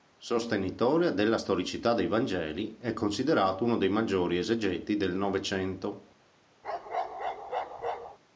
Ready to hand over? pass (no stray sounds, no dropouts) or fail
fail